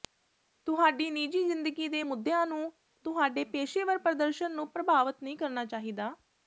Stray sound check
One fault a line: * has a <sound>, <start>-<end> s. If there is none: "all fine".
all fine